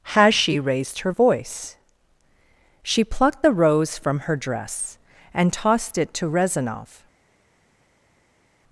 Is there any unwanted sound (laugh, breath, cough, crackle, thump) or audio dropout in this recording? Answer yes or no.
no